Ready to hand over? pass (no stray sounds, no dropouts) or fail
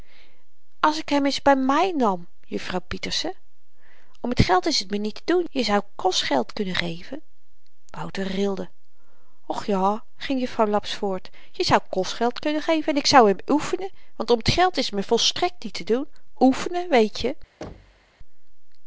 fail